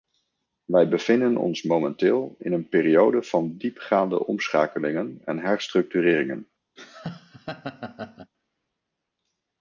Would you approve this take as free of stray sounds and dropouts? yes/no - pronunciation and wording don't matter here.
no